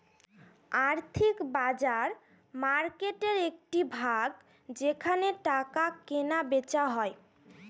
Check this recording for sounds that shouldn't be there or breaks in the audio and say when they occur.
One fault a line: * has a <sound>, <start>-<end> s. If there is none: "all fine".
all fine